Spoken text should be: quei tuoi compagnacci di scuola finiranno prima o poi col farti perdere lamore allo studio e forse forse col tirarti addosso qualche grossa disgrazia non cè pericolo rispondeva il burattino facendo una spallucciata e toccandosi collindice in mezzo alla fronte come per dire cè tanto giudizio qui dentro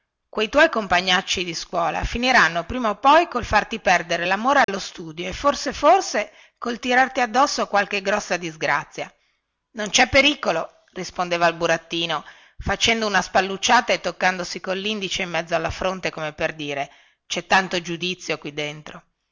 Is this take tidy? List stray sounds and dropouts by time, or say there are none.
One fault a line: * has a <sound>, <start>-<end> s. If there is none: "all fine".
* has a dropout, 4.6-4.7 s